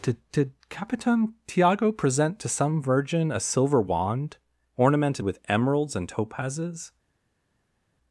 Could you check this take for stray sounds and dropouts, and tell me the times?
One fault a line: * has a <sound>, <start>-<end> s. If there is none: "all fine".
all fine